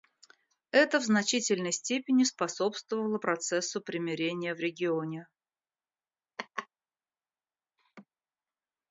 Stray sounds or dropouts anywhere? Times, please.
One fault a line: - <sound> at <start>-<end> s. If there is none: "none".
- laugh at 6.4-6.7 s
- laugh at 7.8-8.1 s